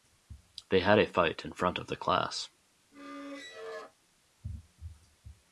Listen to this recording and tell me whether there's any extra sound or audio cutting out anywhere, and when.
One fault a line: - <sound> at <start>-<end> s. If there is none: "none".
- squeak at 2.9-4.0 s